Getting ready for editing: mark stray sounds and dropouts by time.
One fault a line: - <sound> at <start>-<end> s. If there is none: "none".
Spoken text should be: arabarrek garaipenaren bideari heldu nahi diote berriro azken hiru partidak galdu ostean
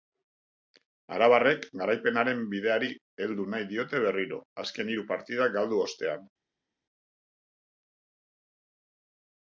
none